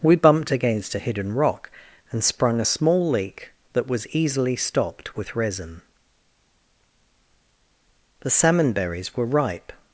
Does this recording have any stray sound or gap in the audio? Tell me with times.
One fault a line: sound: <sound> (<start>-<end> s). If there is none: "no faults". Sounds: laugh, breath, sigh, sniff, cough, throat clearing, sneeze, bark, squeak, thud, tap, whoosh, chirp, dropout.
no faults